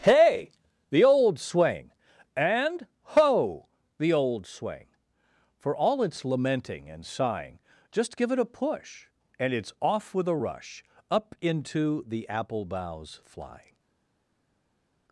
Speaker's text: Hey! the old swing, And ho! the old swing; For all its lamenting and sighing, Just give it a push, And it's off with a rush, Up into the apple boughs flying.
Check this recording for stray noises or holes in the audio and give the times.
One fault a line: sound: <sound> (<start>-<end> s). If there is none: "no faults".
no faults